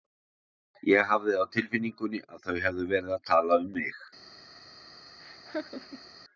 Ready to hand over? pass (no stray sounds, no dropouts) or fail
fail